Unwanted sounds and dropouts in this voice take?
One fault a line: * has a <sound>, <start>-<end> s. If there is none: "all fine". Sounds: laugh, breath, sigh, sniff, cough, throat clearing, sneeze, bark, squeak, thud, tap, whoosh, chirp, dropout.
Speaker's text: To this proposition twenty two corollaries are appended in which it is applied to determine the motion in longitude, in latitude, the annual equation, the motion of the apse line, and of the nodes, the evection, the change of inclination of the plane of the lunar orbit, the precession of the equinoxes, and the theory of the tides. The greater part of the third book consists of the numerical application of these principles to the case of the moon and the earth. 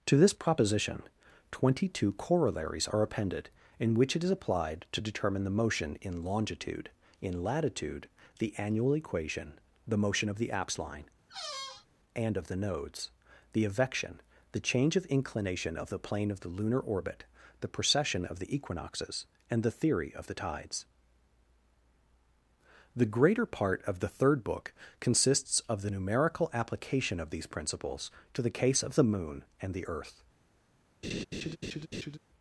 * has a squeak, 11.3-11.9 s
* has a laugh, 31.0-32.2 s